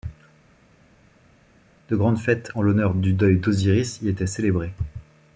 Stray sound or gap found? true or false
false